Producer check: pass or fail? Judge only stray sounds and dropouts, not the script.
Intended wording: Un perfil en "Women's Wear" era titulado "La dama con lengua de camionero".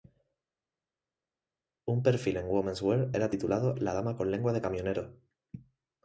pass